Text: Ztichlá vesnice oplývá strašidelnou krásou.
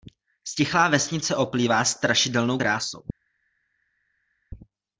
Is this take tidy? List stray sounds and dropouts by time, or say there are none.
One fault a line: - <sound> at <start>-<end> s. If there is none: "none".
none